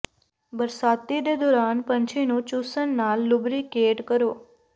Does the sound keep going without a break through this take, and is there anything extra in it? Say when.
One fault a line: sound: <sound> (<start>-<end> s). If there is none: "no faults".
no faults